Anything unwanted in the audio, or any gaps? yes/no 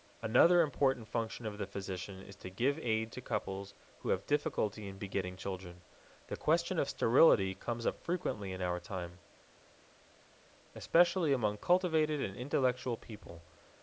no